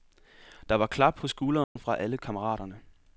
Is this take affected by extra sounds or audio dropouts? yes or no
yes